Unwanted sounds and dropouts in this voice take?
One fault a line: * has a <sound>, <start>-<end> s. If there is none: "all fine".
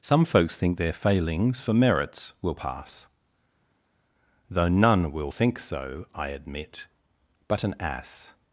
all fine